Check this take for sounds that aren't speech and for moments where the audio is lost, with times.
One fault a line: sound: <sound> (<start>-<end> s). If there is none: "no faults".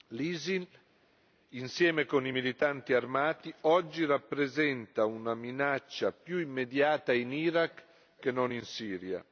no faults